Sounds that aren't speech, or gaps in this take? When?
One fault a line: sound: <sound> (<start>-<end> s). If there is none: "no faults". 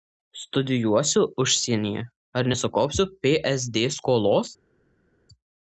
no faults